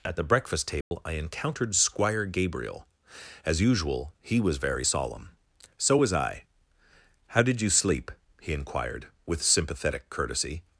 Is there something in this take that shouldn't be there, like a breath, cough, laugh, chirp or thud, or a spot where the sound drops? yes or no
yes